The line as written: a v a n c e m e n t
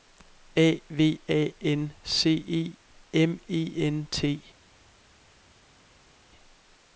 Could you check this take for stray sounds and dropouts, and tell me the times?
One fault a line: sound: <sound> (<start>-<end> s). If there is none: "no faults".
no faults